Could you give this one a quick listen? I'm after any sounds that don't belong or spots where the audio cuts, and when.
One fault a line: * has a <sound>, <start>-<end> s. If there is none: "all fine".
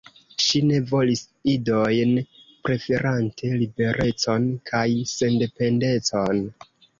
all fine